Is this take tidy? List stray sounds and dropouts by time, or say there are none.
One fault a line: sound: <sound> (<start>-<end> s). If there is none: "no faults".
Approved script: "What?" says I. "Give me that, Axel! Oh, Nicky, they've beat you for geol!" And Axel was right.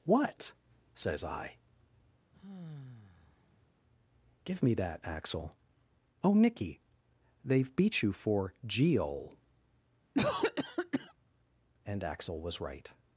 sound: sigh (2.3-3.7 s)
sound: cough (10.1-11.1 s)